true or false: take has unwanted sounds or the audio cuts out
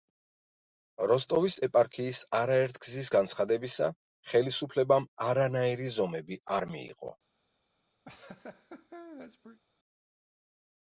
true